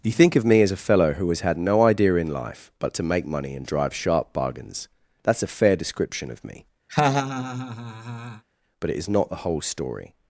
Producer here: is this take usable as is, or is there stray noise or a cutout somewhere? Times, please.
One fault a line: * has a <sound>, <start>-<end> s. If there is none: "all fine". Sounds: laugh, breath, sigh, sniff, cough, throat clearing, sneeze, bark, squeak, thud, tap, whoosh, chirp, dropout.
* has a laugh, 6.9-8.4 s